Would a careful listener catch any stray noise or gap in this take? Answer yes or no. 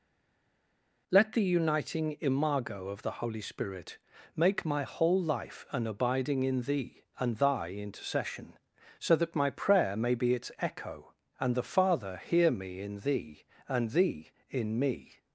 no